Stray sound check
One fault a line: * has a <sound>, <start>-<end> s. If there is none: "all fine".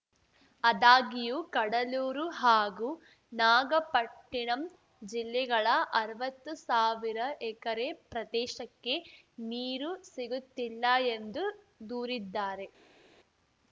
all fine